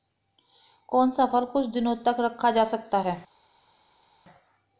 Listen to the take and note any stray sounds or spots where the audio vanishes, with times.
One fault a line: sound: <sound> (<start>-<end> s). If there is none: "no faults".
no faults